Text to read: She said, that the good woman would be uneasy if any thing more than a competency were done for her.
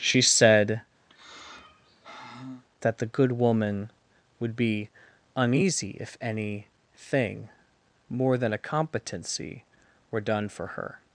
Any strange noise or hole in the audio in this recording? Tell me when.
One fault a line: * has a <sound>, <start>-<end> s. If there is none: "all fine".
* has a sigh, 1.1-2.6 s